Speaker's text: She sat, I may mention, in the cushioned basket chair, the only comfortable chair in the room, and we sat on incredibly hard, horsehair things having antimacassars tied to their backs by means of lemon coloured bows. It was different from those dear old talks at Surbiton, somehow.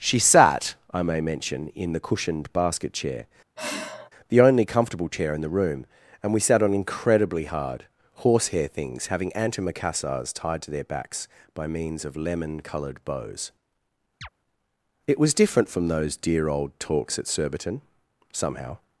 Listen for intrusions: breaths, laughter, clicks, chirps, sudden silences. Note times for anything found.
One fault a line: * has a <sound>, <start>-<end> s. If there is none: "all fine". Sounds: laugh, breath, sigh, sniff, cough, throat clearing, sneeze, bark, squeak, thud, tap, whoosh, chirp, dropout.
* has a sigh, 3.6-4.1 s
* has a chirp, 14.2-14.3 s